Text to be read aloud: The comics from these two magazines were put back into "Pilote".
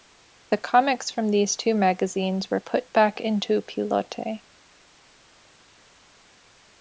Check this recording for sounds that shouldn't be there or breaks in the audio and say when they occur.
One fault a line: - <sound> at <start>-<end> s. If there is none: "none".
none